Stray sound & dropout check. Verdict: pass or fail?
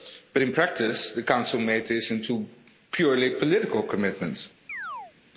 fail